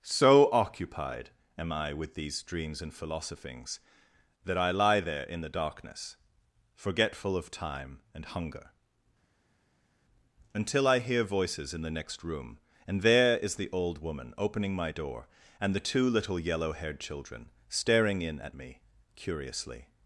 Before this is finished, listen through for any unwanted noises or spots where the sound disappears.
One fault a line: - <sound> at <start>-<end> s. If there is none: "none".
none